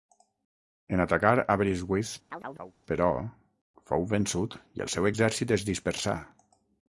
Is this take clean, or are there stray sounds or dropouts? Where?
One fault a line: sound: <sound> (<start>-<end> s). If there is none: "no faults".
sound: chirp (2.3-2.8 s)